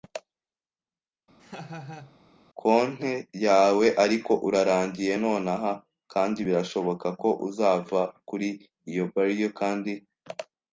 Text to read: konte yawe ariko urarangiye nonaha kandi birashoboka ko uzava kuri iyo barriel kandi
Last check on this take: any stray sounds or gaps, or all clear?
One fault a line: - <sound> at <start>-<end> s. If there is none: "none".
- laugh at 1.4-2.2 s